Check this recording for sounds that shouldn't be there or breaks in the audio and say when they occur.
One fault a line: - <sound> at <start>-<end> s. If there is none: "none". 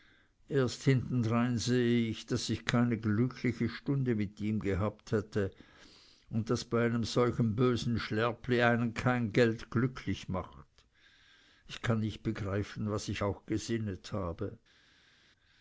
none